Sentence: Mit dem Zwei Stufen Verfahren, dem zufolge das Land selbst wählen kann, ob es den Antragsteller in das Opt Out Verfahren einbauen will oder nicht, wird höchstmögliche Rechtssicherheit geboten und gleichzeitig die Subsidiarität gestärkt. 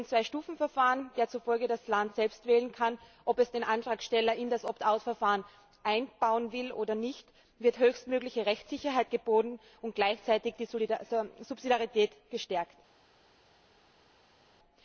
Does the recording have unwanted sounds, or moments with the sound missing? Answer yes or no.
no